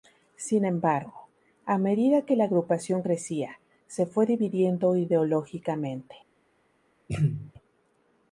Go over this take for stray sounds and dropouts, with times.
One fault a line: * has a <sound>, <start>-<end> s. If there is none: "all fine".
* has a throat clearing, 7.1-7.5 s